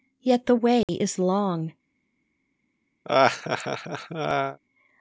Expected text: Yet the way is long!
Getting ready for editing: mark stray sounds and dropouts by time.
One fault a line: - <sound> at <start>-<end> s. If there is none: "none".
- dropout at 0.8-0.9 s
- laugh at 3.0-4.6 s